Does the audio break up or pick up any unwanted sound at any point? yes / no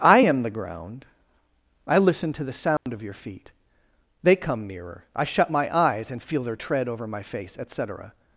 yes